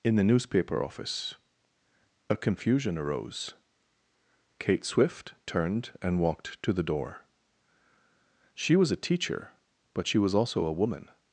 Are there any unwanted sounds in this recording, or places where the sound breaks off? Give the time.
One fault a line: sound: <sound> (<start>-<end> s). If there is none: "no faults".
no faults